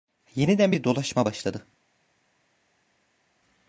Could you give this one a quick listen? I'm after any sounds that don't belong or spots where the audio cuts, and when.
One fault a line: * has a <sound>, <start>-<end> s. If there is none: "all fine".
all fine